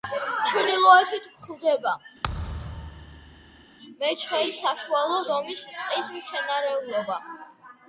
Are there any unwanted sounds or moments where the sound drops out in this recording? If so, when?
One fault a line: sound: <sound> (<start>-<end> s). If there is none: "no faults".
sound: thud (2.2-3.7 s)